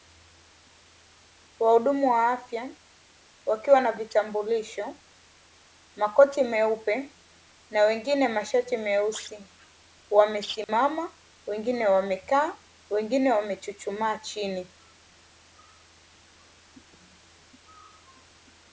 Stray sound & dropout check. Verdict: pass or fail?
fail